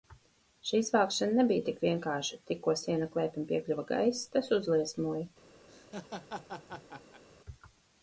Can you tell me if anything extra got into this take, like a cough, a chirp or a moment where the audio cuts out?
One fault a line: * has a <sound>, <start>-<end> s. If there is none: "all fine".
* has a laugh, 5.7-7.2 s